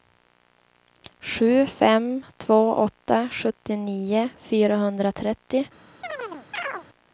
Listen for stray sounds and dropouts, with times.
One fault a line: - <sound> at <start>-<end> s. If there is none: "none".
- chirp at 6.0-6.9 s